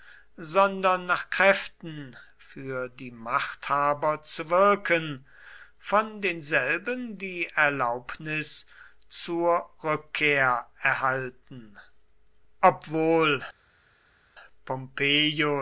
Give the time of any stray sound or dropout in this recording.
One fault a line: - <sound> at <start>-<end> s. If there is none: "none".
none